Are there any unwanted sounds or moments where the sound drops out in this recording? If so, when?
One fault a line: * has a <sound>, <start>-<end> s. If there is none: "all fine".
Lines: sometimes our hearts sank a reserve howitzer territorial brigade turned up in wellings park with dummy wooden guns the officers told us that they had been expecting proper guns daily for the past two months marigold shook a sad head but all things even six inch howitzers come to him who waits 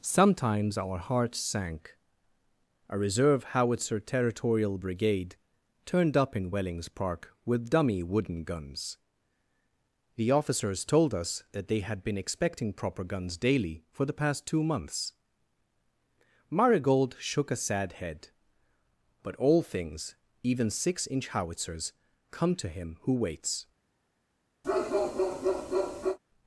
* has a bark, 24.6-26.2 s